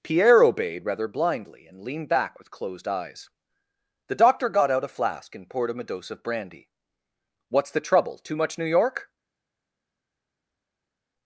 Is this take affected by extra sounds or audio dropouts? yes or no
no